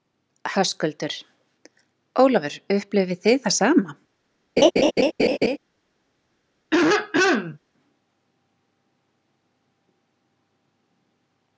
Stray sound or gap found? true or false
true